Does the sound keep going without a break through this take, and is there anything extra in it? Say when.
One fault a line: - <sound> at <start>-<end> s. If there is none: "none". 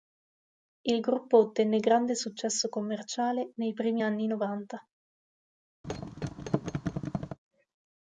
- thud at 5.8-7.4 s